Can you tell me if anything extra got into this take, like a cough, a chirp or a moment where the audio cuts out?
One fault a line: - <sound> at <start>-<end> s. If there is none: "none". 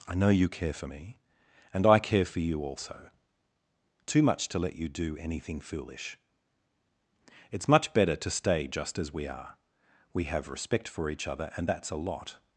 none